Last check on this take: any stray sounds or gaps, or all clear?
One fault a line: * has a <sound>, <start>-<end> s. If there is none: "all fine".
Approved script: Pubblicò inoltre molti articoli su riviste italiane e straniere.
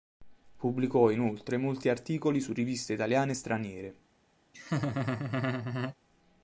* has a laugh, 4.5-6.0 s